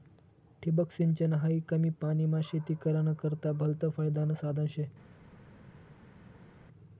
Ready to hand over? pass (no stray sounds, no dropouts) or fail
pass